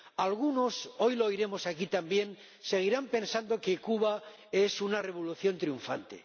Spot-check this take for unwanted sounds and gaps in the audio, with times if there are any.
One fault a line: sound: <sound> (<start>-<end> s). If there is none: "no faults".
no faults